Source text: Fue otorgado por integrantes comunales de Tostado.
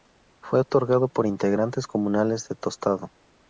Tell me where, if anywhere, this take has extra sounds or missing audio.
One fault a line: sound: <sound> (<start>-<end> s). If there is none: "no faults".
no faults